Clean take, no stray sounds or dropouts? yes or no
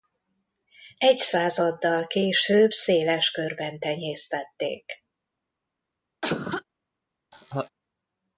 no